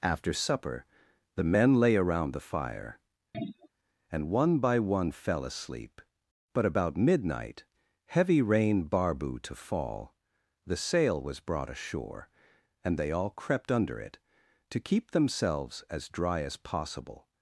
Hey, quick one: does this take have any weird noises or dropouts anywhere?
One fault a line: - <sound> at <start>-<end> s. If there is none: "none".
- throat clearing at 3.3-3.7 s